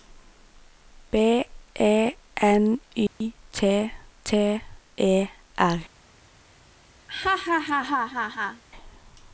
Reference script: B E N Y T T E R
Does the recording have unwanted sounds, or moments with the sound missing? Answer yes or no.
yes